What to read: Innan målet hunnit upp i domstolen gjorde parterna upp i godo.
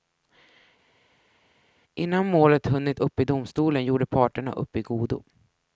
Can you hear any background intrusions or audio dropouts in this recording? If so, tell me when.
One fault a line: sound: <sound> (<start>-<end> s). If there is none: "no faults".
no faults